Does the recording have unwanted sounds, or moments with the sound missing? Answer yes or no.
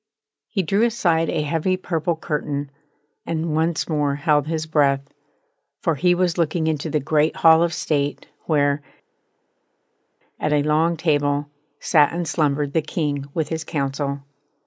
no